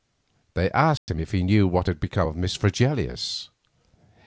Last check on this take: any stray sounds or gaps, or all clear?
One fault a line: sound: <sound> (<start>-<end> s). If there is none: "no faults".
sound: dropout (1.0-1.1 s)